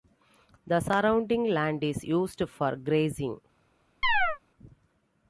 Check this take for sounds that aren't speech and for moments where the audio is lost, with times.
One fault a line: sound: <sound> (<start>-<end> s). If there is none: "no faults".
sound: chirp (4.0-4.4 s)